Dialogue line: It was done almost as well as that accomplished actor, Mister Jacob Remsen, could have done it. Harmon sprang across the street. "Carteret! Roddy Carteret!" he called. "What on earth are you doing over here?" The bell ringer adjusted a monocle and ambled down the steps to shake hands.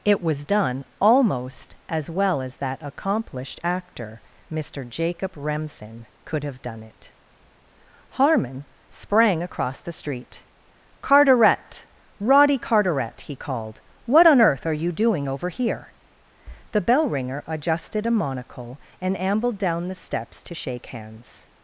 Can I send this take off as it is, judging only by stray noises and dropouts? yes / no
yes